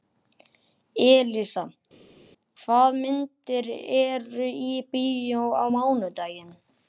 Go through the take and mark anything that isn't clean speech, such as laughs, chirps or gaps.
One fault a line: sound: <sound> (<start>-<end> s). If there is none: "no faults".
no faults